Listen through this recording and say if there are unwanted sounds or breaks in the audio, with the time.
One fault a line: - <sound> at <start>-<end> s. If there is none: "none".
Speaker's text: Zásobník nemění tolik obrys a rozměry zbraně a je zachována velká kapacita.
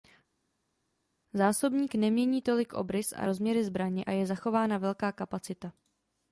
none